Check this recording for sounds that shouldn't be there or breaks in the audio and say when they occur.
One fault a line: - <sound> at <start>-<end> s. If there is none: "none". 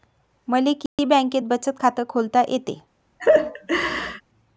- dropout at 0.9-1.0 s
- laugh at 3.2-4.2 s